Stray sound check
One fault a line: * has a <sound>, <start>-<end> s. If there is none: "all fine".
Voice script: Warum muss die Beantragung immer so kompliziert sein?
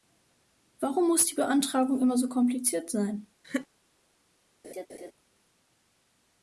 * has a laugh, 3.4-3.7 s
* has a laugh, 4.6-5.1 s